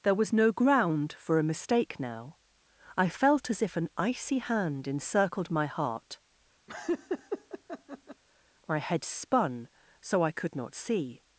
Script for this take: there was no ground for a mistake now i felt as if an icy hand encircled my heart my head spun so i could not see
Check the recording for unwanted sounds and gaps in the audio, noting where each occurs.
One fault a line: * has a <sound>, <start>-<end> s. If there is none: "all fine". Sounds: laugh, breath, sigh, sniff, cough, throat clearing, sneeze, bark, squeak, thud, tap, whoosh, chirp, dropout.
* has a laugh, 6.7-8.2 s